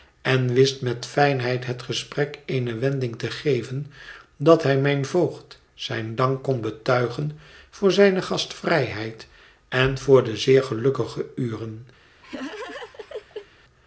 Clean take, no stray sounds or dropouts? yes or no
no